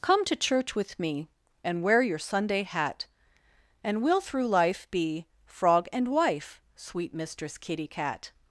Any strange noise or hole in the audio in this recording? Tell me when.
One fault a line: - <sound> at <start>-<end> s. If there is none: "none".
none